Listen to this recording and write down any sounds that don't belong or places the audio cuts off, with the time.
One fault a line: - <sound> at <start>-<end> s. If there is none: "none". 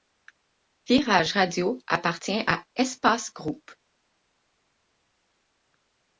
none